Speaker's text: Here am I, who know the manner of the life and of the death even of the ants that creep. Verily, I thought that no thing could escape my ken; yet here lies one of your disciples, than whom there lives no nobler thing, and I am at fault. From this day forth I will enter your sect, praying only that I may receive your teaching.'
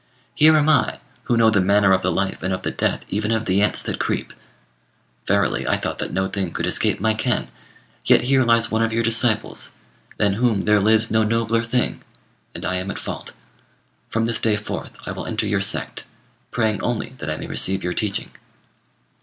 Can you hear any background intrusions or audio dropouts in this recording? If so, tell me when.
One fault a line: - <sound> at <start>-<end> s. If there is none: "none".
none